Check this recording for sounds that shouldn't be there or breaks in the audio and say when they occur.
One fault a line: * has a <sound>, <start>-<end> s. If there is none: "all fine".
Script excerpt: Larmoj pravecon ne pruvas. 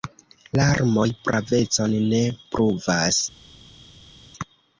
all fine